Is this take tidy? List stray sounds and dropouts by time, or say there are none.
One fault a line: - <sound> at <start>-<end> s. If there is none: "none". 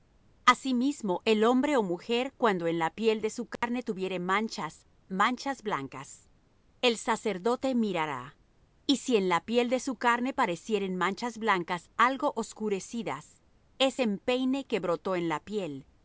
- dropout at 3.6-3.6 s